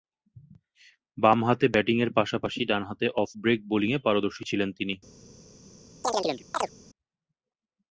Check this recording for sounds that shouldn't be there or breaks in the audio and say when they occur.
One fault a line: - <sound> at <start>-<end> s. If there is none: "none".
- chirp at 6.0-6.7 s